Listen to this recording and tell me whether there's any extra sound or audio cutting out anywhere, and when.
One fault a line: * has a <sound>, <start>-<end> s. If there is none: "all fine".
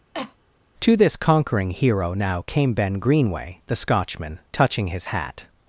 * has a cough, 0.1-0.4 s